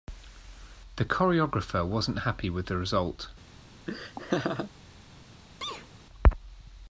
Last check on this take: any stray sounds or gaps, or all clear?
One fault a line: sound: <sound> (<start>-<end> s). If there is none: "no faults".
sound: laugh (3.9-4.7 s)
sound: sneeze (5.6-5.9 s)